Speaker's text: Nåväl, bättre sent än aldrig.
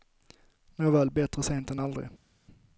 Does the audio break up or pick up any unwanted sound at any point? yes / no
no